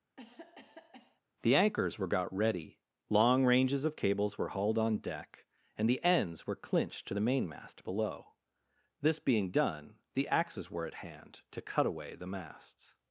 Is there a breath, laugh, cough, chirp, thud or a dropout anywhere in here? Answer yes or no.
yes